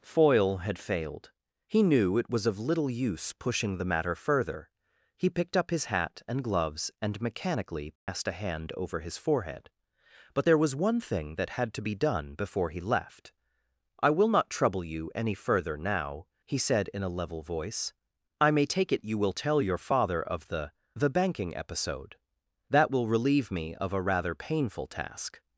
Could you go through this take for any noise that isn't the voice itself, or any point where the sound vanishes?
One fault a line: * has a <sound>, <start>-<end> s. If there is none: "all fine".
* has a dropout, 8.0-8.1 s